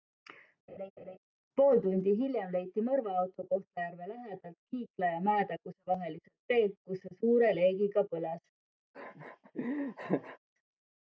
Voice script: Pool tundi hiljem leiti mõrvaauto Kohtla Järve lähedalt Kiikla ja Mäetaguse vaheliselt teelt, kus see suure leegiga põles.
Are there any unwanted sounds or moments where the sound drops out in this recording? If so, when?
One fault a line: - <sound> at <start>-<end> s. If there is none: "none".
- laugh at 0.7-1.2 s
- laugh at 8.9-10.4 s